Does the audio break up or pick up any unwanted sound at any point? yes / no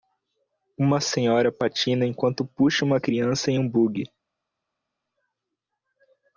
no